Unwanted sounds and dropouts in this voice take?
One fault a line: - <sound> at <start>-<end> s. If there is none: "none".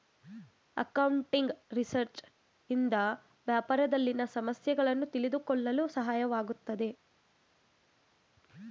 none